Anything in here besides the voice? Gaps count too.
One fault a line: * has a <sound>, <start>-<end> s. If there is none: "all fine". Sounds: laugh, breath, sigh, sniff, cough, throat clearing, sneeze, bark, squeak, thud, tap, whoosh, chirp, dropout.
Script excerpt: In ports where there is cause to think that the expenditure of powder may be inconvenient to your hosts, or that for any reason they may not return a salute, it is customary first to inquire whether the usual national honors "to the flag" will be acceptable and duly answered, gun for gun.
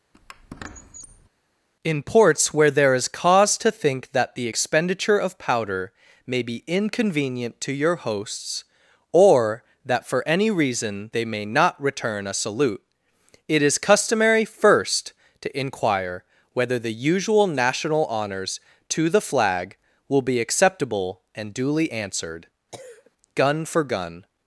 * has a squeak, 0.1-1.3 s
* has a cough, 22.7-23.1 s